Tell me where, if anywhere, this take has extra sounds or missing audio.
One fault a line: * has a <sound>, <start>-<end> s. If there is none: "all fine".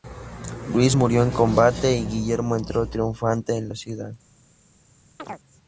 * has a chirp, 5.2-5.4 s